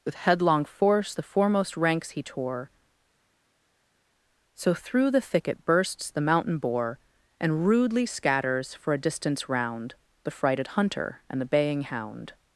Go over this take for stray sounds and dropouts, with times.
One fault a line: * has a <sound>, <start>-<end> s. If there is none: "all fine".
all fine